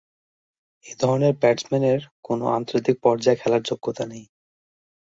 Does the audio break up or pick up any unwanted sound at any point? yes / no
no